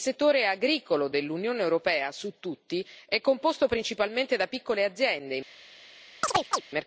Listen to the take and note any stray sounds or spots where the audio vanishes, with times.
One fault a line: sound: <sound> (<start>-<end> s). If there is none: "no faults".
sound: chirp (6.2-6.6 s)